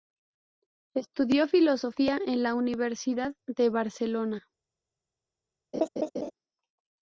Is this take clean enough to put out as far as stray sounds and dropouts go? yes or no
no